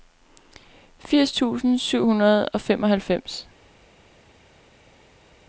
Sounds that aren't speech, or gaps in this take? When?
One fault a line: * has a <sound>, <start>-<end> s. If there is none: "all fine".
all fine